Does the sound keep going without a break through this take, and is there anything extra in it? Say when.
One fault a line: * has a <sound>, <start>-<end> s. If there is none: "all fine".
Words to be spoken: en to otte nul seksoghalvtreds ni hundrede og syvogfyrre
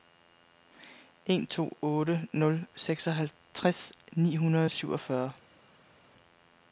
all fine